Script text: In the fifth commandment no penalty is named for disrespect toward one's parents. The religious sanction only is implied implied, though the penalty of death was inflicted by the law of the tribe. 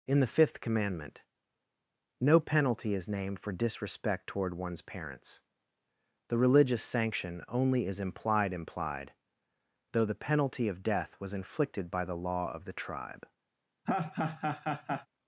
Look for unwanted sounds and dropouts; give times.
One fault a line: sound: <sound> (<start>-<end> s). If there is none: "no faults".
sound: laugh (13.9-15.1 s)